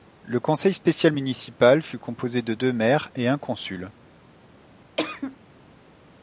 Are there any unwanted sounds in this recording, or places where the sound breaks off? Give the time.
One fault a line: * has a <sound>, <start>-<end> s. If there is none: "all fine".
* has a cough, 5.0-5.4 s